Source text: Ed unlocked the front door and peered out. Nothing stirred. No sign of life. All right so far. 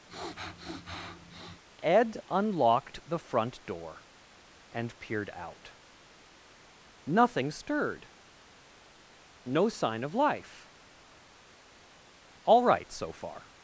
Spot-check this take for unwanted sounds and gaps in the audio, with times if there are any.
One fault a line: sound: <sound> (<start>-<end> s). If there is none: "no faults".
sound: sniff (0.1-1.6 s)